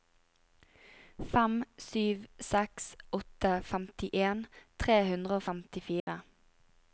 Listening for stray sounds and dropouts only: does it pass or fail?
fail